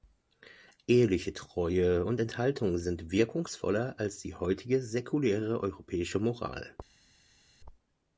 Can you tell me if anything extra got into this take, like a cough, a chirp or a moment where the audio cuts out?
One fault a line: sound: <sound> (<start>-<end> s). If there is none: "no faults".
no faults